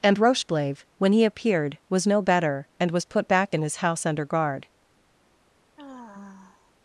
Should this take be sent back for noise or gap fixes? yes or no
yes